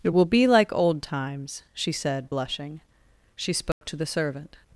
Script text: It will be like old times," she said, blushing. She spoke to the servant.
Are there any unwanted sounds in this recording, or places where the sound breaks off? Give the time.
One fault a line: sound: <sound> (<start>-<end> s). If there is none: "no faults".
sound: dropout (3.7-3.8 s)